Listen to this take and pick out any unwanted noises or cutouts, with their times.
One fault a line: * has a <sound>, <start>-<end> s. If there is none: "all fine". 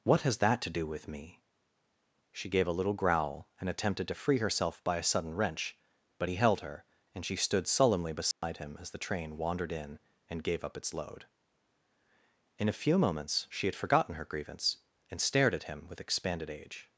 * has a dropout, 8.3-8.4 s